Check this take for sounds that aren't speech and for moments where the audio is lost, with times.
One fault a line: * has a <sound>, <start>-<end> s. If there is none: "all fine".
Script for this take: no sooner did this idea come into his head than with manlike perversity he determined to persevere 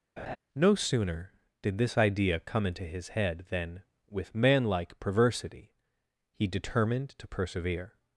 * has a laugh, 0.2-0.4 s